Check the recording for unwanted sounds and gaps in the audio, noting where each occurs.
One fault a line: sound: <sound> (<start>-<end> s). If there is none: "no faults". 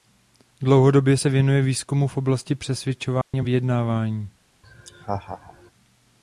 sound: dropout (3.2-3.3 s)
sound: laugh (4.6-5.7 s)